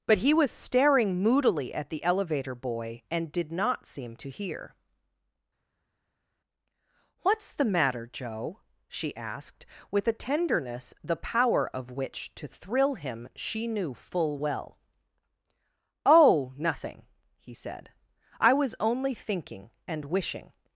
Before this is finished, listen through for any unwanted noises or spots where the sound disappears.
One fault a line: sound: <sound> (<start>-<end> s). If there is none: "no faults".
no faults